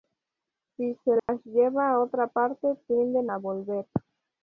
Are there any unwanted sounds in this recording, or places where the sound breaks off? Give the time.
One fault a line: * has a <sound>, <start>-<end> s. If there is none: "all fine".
* has a dropout, 1.2-1.3 s